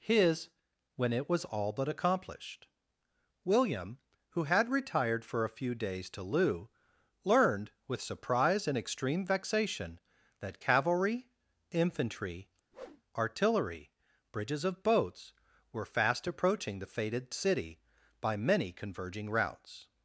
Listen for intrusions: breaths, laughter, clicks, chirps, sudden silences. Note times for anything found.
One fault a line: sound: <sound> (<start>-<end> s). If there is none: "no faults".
sound: whoosh (12.7-13.0 s)